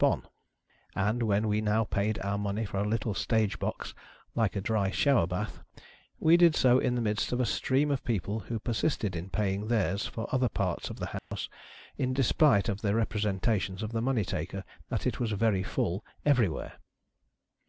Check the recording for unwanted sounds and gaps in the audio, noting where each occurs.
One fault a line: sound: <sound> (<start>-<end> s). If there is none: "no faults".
sound: dropout (11.2-11.3 s)